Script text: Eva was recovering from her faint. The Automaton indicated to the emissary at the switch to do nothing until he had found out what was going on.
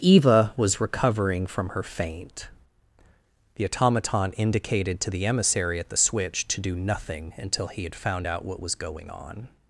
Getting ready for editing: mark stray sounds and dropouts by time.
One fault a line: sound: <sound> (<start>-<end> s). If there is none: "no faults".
no faults